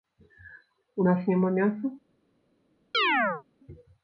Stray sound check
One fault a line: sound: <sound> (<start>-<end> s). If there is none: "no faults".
sound: chirp (2.9-3.4 s)